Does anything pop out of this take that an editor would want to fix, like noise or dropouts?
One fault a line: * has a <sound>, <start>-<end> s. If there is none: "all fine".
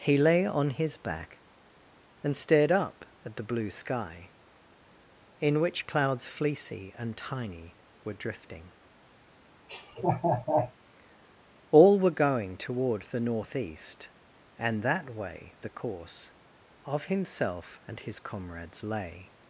* has a laugh, 9.7-10.7 s